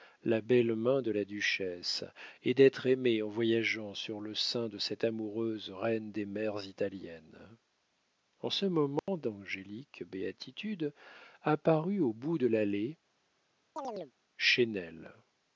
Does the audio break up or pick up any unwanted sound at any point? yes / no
yes